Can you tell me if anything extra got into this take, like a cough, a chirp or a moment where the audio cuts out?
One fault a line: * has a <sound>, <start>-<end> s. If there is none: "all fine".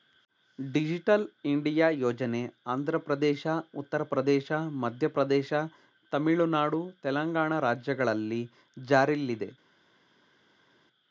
all fine